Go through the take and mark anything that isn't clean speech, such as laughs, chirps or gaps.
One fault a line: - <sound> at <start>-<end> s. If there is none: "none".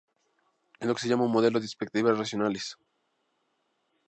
none